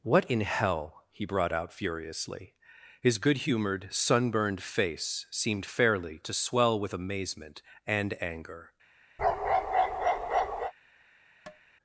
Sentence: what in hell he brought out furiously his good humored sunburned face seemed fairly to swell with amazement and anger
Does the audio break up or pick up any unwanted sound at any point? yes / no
yes